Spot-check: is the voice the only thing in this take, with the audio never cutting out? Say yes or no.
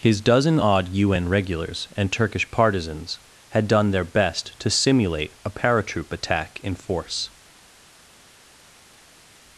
yes